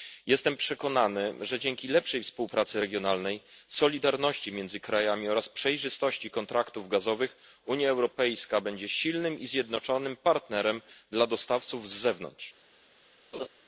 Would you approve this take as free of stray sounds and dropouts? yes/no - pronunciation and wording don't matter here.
no